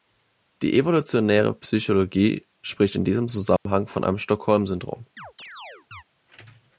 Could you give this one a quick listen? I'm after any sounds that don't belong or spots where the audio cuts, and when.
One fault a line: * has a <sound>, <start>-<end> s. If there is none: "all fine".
* has a dropout, 3.6-3.7 s
* has a chirp, 5.2-6.0 s